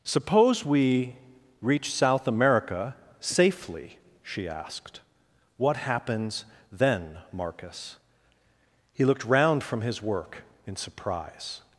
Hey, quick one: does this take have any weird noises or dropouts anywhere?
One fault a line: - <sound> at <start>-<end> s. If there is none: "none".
none